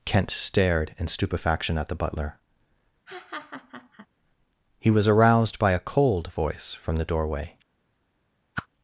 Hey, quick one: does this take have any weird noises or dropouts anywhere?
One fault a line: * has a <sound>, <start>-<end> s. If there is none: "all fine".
* has a laugh, 3.1-4.1 s
* has a whoosh, 8.5-8.7 s